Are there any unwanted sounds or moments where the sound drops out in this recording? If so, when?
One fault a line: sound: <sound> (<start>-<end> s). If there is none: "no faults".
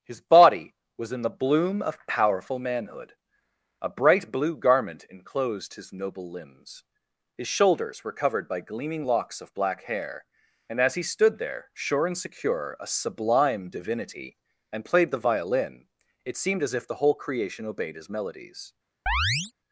sound: chirp (19.1-19.5 s)